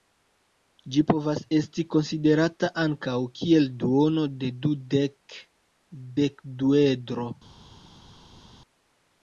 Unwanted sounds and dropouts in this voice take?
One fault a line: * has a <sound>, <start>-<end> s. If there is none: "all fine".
all fine